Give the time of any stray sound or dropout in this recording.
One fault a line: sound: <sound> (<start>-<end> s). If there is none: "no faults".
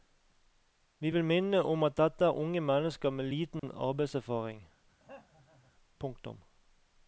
sound: dropout (3.6-3.6 s)
sound: throat clearing (5.0-5.7 s)